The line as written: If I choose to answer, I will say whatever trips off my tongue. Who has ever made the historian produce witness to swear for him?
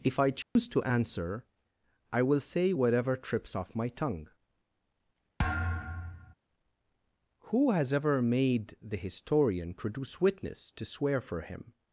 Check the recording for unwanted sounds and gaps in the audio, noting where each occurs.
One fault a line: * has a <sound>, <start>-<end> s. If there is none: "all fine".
* has a dropout, 0.4-0.6 s
* has a thud, 5.4-6.3 s